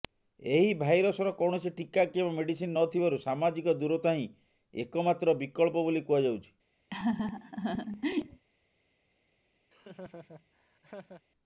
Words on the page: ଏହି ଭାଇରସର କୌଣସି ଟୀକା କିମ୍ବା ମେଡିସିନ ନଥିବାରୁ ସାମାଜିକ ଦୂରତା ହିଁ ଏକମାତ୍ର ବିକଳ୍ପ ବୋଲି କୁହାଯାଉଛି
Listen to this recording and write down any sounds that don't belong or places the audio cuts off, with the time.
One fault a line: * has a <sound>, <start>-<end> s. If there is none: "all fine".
* has a laugh, 6.9-8.4 s
* has a laugh, 9.7-11.2 s